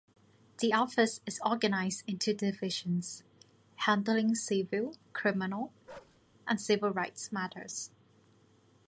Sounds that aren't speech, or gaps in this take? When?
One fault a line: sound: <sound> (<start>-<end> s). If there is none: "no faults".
sound: bark (5.9-6.2 s)